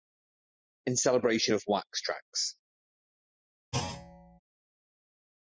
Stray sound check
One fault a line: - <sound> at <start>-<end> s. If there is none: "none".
- thud at 3.7-4.4 s